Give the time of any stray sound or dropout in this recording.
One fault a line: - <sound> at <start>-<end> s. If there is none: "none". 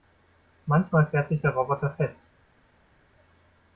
none